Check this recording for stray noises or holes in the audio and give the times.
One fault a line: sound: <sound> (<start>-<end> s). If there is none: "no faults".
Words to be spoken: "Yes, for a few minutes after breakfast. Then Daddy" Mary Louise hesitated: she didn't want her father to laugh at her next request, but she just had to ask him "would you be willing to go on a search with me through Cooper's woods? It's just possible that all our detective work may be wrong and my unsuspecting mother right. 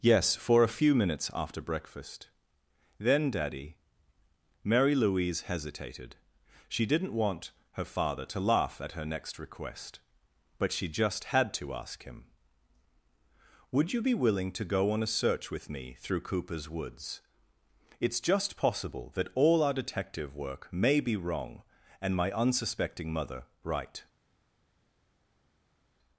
no faults